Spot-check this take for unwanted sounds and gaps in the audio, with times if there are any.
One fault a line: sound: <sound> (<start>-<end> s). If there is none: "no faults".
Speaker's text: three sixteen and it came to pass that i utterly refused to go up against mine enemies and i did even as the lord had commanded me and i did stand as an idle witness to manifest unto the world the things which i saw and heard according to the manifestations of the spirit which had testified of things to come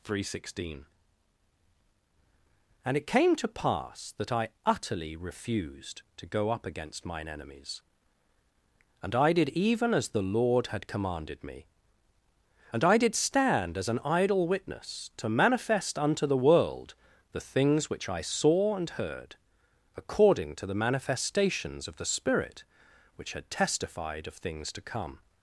no faults